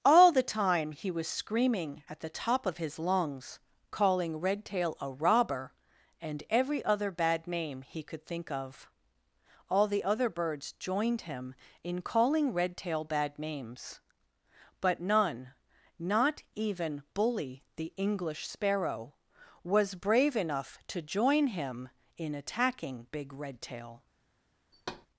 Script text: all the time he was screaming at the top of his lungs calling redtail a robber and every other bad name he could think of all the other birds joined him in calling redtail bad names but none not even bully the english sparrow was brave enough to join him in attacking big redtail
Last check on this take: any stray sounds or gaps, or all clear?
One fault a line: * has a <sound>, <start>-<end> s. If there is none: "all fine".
* has a thud, 24.7-25.1 s